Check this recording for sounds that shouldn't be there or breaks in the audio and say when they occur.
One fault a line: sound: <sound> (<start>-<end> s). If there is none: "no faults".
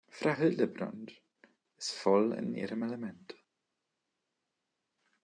no faults